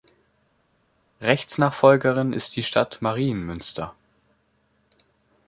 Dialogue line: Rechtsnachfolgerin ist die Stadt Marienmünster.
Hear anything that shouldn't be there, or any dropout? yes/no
no